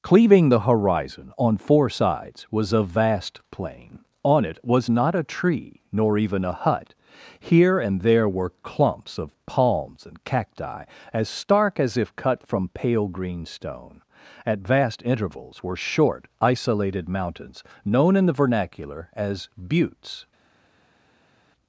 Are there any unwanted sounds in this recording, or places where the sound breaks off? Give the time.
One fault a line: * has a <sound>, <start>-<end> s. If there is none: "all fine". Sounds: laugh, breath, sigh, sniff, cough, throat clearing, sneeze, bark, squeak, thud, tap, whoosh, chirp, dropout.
all fine